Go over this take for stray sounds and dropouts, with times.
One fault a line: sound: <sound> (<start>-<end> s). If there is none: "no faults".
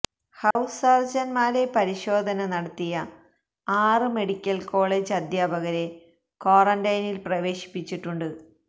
sound: dropout (0.5-0.6 s)